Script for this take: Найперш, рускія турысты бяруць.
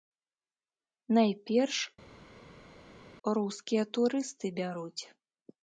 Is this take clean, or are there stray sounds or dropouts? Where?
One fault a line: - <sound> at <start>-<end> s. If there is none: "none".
none